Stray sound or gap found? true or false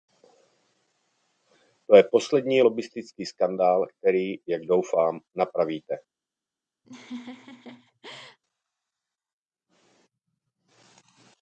true